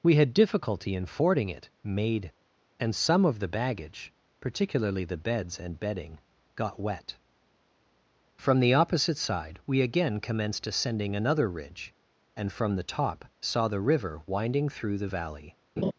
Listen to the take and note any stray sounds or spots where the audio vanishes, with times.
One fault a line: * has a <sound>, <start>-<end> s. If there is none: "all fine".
* has a laugh, 15.8-15.9 s